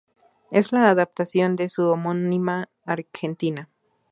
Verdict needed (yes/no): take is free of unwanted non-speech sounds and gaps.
yes